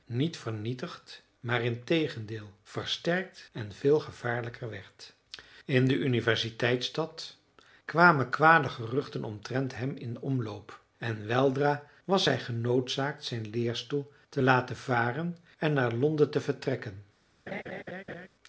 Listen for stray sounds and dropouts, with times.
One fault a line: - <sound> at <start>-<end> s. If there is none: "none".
- laugh at 17.5-18.3 s